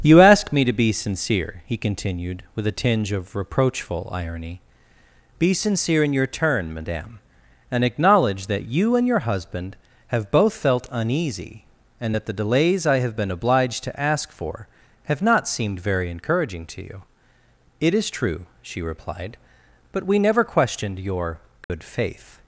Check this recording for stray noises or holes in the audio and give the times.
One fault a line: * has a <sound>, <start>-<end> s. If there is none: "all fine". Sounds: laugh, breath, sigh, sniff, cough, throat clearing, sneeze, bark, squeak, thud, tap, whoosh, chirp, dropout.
* has a dropout, 21.6-21.7 s